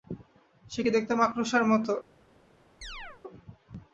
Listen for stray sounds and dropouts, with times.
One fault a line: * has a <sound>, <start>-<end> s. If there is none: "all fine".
* has a chirp, 2.8-3.2 s